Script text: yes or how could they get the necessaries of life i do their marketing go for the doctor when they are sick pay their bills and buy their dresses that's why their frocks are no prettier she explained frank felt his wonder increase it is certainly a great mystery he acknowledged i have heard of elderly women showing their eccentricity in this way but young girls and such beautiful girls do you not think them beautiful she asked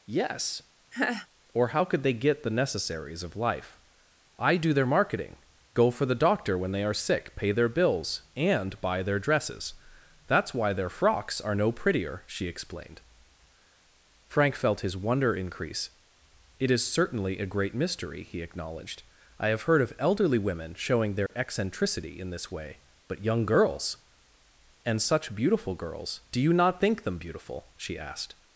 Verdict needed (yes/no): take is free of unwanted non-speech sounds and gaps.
no